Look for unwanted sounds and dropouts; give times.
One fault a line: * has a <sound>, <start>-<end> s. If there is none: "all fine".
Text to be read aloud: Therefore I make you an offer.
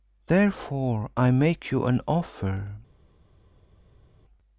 all fine